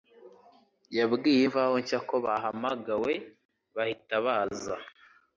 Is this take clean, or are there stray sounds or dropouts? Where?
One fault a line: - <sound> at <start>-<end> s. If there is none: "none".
none